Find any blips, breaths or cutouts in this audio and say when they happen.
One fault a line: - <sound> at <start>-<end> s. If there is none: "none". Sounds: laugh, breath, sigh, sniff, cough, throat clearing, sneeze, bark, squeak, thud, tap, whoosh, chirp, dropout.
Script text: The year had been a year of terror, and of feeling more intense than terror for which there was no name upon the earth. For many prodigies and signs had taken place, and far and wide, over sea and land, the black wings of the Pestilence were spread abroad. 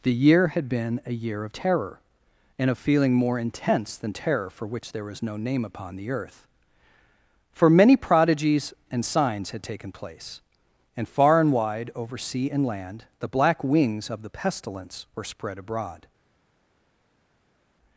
none